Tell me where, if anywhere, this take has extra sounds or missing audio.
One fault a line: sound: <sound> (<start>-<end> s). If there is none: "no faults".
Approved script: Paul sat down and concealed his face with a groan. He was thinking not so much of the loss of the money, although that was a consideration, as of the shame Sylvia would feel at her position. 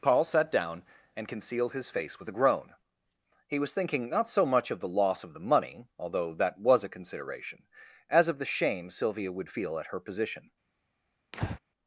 sound: breath (11.3-11.6 s)